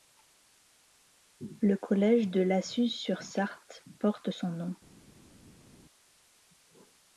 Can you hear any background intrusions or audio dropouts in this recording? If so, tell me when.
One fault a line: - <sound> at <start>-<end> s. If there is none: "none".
none